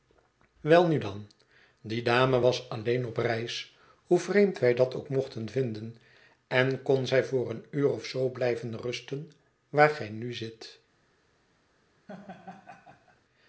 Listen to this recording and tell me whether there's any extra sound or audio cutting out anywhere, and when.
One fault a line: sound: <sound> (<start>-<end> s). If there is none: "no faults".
sound: laugh (12.1-13.2 s)